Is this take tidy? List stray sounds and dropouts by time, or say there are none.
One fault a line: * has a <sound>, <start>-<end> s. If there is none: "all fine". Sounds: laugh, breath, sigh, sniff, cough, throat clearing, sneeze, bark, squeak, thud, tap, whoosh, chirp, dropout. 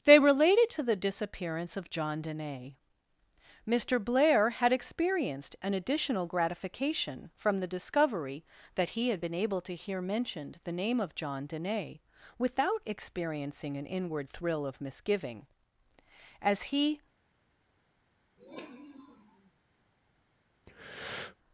* has a sniff, 18.4-19.5 s
* has a breath, 20.7-21.4 s